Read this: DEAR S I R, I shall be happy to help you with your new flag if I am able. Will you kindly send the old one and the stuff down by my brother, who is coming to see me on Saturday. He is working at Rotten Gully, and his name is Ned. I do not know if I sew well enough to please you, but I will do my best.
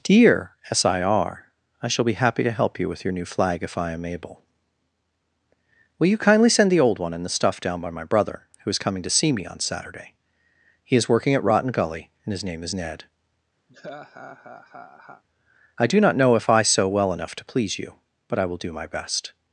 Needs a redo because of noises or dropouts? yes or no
yes